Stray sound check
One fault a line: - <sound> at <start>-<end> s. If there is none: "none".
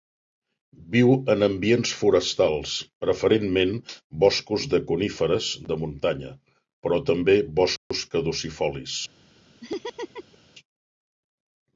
- dropout at 7.8-7.9 s
- laugh at 9.6-10.4 s